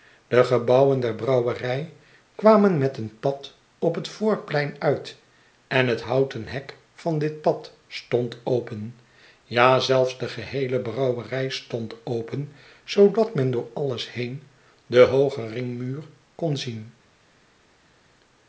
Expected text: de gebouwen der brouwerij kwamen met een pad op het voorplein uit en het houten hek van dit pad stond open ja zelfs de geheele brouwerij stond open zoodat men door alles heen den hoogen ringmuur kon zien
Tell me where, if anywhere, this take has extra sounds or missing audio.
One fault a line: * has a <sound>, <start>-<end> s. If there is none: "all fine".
all fine